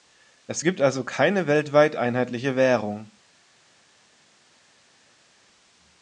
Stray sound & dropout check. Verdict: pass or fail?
pass